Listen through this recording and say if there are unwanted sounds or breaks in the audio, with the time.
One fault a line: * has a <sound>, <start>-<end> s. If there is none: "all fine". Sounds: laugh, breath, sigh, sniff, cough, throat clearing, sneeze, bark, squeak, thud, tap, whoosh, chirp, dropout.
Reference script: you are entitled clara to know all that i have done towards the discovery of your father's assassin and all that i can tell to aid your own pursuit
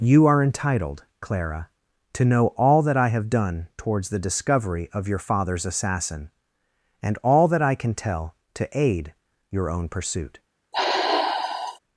* has a sigh, 10.7-11.8 s